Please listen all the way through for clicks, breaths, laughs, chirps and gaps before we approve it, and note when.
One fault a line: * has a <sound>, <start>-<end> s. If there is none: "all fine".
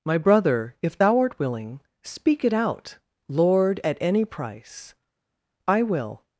all fine